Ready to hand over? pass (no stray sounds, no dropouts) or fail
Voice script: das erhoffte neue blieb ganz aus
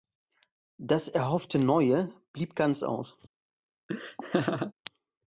fail